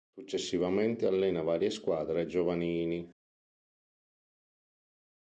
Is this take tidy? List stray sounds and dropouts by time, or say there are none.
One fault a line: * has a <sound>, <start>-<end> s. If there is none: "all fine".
all fine